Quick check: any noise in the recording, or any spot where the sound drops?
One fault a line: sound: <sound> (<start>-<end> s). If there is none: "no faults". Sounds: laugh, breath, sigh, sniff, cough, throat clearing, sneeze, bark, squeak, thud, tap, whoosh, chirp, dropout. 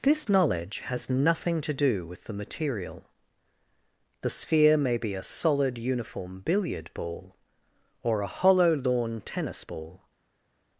no faults